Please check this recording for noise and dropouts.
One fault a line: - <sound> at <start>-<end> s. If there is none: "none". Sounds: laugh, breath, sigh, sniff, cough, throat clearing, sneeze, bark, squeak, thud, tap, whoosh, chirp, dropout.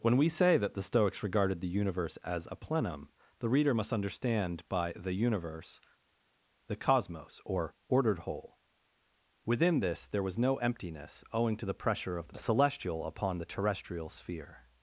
none